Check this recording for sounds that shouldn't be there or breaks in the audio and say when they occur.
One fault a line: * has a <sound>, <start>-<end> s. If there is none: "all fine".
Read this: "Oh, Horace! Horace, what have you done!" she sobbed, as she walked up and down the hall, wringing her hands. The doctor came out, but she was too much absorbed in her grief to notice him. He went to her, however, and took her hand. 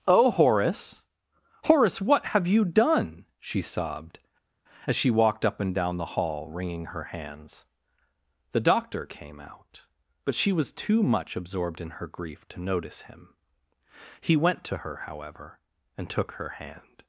all fine